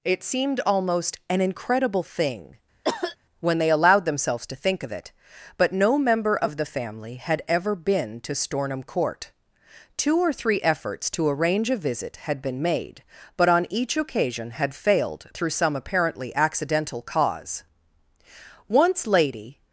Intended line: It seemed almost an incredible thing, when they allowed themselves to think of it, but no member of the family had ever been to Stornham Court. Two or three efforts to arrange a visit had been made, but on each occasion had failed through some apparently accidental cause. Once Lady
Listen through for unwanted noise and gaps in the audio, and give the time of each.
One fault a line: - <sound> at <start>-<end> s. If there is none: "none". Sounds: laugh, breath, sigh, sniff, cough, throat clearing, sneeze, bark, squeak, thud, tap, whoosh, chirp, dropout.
- cough at 2.8-3.2 s